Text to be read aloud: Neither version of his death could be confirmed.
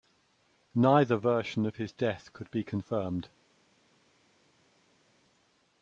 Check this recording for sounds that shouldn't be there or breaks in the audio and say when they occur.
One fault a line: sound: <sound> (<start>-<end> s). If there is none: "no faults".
no faults